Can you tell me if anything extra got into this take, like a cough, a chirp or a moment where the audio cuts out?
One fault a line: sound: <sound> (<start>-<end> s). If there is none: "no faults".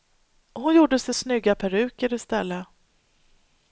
no faults